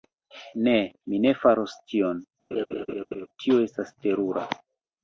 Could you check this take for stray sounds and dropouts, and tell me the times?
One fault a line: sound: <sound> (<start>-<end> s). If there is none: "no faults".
sound: laugh (2.5-3.3 s)